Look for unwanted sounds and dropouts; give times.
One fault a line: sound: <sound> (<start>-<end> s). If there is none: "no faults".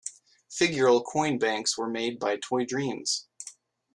no faults